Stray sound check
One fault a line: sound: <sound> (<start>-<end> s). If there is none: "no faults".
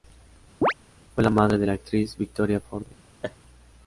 sound: chirp (0.6-0.7 s)
sound: laugh (3.2-3.4 s)